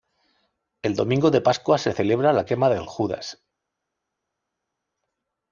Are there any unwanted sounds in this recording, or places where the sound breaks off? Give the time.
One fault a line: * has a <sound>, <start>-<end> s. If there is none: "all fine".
all fine